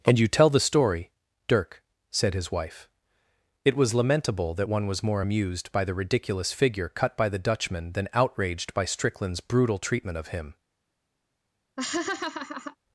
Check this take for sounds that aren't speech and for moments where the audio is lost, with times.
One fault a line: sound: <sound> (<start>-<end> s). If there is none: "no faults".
sound: laugh (11.8-12.8 s)